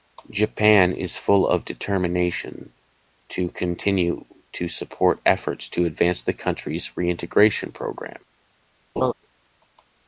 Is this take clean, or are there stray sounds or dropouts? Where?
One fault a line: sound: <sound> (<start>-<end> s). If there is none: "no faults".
sound: laugh (9.0-9.1 s)